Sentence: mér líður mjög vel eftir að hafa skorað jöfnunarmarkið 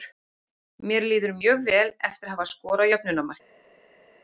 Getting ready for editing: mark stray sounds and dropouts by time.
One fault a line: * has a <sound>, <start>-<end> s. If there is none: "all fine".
all fine